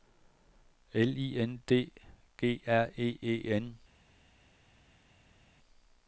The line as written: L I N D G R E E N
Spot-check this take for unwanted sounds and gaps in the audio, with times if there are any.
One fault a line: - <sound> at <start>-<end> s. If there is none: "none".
none